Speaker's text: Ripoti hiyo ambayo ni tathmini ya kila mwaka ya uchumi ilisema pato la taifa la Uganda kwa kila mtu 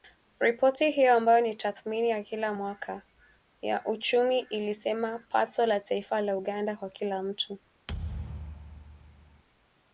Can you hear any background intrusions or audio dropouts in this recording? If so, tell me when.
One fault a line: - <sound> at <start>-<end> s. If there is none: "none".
- thud at 7.9-9.4 s